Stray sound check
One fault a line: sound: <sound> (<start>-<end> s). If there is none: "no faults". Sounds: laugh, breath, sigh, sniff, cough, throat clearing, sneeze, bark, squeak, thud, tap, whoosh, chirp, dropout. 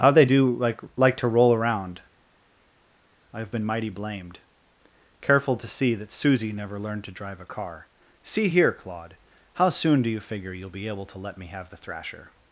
no faults